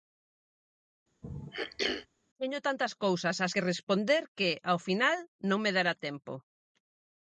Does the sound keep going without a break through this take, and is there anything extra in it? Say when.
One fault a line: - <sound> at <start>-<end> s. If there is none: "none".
- throat clearing at 1.2-2.1 s